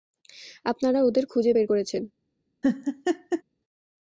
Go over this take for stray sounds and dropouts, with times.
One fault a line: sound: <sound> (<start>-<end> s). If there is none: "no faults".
sound: laugh (2.6-3.4 s)